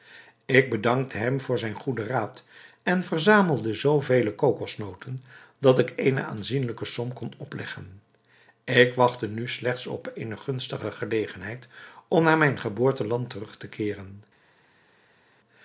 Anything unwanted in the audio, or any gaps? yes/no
no